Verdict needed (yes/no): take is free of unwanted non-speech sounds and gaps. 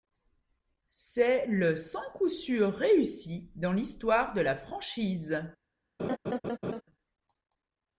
no